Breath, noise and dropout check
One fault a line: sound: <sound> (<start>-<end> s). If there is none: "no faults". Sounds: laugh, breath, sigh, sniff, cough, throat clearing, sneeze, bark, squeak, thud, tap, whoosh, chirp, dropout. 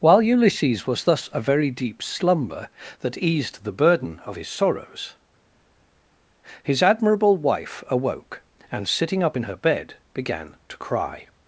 no faults